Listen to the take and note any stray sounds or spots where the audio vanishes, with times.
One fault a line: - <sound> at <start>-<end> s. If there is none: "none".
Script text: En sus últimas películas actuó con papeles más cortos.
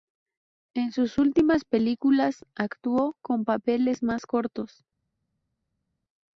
none